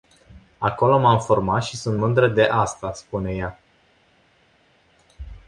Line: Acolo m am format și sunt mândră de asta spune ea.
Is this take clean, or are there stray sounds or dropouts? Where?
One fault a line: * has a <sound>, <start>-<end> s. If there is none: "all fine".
all fine